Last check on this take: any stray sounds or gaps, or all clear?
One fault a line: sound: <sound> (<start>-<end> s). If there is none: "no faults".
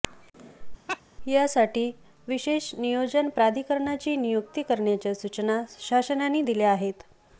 sound: laugh (0.9-1.0 s)